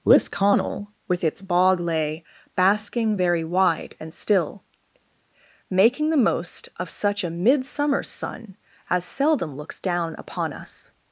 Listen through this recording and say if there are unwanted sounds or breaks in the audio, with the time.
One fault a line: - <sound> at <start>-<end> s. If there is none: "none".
none